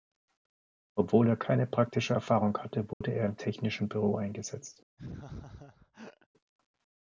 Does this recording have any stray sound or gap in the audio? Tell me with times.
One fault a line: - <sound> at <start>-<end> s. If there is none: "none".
- dropout at 2.9-3.0 s
- laugh at 5.0-6.3 s